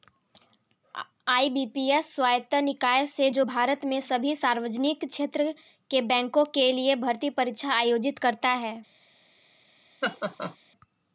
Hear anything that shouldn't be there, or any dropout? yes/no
yes